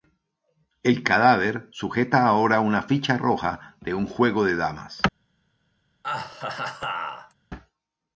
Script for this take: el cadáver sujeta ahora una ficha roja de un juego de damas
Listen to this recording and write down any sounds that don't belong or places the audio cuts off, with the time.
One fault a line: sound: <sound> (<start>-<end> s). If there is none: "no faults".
sound: laugh (6.0-7.3 s)